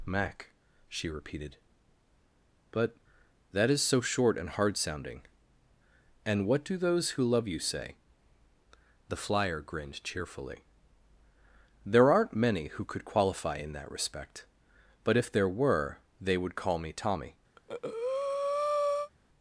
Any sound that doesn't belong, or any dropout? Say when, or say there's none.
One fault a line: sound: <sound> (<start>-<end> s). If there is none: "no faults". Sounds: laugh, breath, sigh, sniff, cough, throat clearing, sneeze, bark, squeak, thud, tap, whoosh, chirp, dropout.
sound: breath (17.6-19.1 s)